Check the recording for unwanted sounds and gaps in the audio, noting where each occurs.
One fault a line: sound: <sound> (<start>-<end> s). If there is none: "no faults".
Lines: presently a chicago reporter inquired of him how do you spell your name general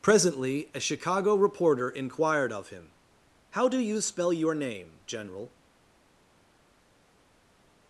no faults